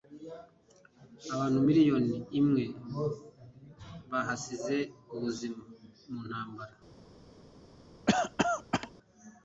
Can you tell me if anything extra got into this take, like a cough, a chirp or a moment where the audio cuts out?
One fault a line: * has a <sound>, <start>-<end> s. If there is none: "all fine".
* has a cough, 8.1-8.9 s